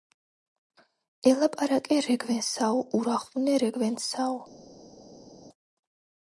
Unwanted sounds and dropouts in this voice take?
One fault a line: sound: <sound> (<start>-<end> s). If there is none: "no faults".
no faults